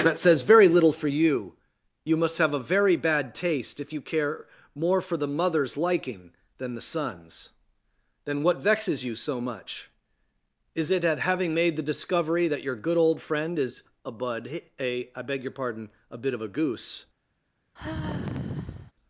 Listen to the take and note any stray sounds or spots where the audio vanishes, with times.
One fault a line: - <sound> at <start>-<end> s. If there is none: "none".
- sigh at 17.8-18.9 s